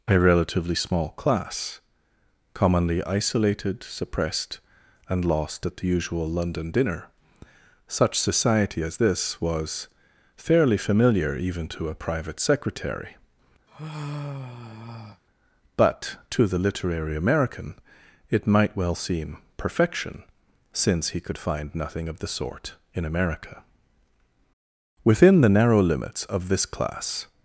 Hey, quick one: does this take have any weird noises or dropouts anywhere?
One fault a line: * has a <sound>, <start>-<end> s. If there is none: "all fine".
* has a sigh, 13.7-15.2 s